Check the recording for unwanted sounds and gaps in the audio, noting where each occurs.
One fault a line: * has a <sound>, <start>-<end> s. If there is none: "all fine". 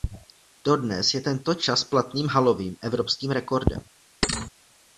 * has a thud, 4.2-4.5 s